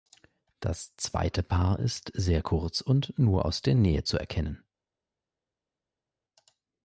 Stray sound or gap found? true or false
false